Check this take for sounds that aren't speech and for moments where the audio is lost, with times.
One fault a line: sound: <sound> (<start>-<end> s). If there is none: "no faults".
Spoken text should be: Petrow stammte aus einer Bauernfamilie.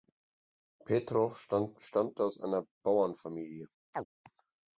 sound: chirp (3.9-4.1 s)